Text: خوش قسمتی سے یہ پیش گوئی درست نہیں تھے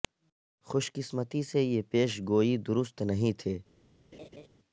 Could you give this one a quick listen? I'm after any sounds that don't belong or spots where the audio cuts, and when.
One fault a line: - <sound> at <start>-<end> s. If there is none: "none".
- laugh at 4.1-4.5 s